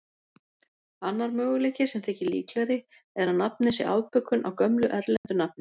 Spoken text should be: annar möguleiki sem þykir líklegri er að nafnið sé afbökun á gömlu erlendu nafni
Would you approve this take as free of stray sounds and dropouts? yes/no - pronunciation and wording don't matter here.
no